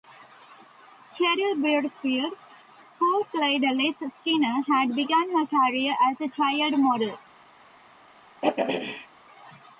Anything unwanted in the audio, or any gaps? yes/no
yes